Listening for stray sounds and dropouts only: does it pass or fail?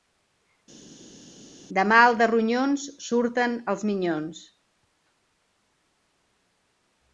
pass